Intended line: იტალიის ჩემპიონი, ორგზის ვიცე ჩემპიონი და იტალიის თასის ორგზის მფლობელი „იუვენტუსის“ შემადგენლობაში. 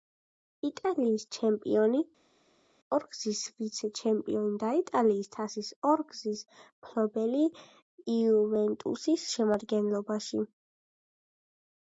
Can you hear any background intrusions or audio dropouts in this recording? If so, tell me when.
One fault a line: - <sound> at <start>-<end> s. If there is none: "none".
none